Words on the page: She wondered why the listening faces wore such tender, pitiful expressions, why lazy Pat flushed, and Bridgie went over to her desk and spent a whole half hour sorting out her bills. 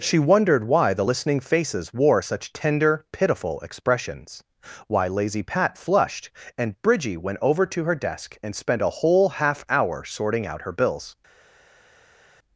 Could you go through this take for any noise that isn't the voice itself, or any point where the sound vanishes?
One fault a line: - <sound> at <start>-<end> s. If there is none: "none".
none